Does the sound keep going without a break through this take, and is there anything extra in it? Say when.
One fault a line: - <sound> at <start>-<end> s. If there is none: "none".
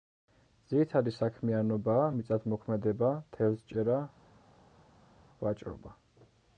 none